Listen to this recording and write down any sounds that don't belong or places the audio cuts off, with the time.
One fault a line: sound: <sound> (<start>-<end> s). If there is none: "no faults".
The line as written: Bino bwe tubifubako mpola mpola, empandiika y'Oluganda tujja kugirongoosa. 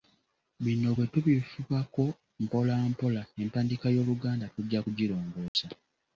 sound: dropout (5.5-5.5 s)